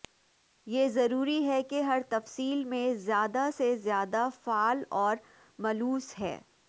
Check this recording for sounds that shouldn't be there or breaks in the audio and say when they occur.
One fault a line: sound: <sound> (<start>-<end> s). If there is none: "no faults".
no faults